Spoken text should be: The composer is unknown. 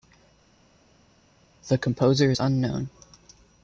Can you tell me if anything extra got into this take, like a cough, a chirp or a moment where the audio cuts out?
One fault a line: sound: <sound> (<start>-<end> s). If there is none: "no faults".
no faults